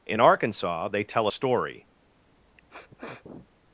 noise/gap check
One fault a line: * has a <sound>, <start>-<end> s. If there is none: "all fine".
* has a sniff, 2.4-3.5 s